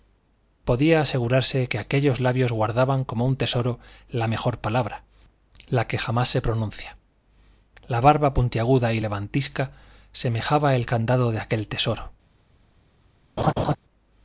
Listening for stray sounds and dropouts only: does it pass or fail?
fail